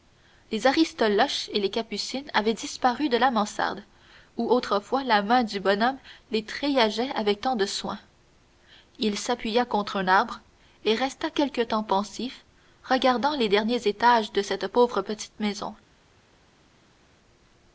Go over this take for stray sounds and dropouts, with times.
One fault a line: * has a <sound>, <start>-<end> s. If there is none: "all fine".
all fine